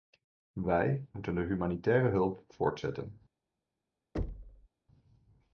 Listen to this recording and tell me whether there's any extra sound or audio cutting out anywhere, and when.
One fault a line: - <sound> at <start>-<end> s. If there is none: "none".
- thud at 4.1-4.7 s